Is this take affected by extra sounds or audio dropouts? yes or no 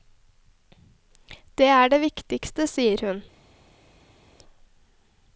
no